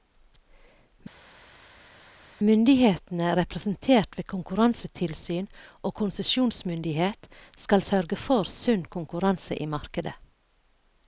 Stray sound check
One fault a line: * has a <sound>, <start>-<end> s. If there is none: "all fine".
all fine